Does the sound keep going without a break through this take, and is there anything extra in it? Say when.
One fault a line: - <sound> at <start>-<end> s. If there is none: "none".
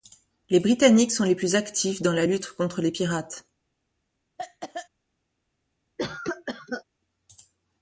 - cough at 4.4-4.9 s
- cough at 6.0-6.8 s